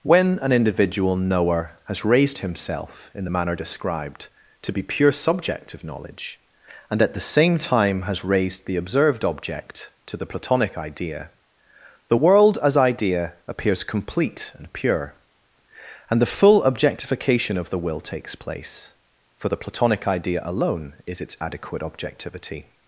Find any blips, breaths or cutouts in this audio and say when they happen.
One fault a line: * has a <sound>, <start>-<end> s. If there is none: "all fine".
all fine